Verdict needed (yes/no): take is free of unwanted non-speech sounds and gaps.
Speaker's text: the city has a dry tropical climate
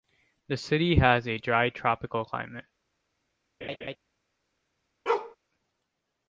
no